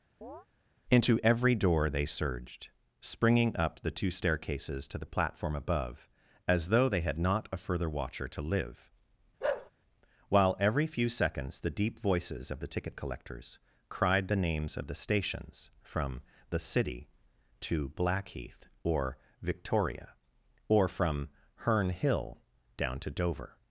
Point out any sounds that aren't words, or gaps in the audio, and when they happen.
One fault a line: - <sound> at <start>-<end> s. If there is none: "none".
- chirp at 0.2-0.5 s
- bark at 9.4-9.7 s